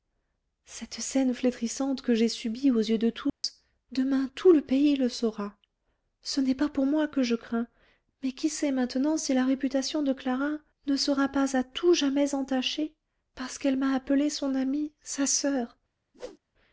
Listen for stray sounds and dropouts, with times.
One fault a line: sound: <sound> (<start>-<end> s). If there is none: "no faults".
sound: dropout (3.3-3.4 s)
sound: whoosh (16.1-16.4 s)